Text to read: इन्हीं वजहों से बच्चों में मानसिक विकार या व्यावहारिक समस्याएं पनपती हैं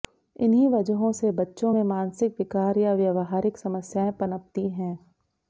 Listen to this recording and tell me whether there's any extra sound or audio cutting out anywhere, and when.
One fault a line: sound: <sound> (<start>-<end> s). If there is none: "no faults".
no faults